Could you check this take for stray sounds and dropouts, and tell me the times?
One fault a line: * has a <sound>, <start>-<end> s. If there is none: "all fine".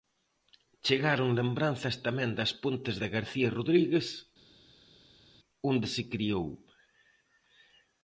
all fine